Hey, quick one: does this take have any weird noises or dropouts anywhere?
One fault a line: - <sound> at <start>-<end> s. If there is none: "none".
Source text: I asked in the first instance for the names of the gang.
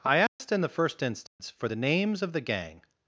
- dropout at 0.3-0.4 s
- dropout at 1.3-1.4 s